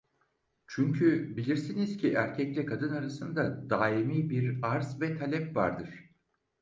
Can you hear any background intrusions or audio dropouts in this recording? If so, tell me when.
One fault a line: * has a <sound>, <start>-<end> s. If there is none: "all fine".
all fine